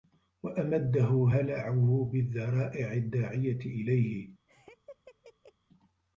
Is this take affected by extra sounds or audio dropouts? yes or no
yes